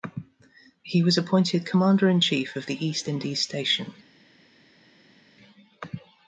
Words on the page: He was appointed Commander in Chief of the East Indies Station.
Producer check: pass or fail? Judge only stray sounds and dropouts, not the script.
pass